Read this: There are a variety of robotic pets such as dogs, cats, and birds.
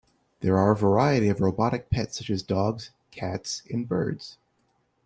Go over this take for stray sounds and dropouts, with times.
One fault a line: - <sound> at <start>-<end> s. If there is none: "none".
none